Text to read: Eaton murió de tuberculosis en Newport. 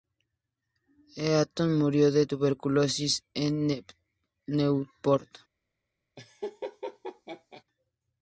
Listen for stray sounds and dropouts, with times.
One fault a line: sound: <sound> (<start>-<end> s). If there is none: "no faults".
sound: laugh (6.2-7.6 s)